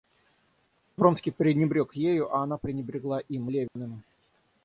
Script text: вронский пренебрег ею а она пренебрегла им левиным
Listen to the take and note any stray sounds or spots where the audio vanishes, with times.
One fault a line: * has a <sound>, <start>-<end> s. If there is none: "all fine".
* has a dropout, 3.7-3.8 s